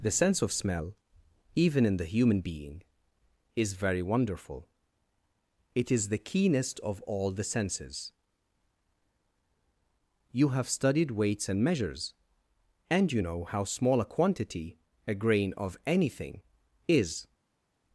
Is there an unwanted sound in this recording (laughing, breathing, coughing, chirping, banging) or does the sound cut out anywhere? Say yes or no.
no